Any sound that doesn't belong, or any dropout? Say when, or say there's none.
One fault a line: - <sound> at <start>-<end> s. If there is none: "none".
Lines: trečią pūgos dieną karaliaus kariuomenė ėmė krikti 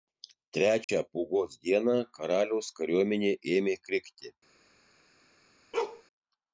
- dropout at 0.8-0.9 s
- bark at 5.7-6.0 s